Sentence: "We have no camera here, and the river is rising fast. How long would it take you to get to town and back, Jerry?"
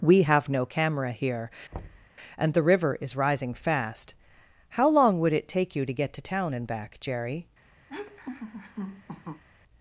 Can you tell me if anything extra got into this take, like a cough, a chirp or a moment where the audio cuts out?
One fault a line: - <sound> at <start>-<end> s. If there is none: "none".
- thud at 1.7-2.1 s
- laugh at 7.9-9.4 s